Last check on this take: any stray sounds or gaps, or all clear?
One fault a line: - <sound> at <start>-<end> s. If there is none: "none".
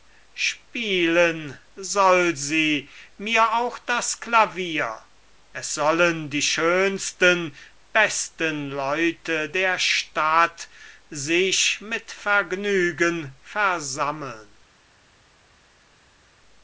none